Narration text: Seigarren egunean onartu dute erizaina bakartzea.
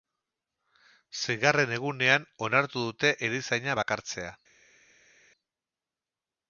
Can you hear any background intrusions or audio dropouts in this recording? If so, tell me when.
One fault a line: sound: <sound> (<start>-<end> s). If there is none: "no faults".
no faults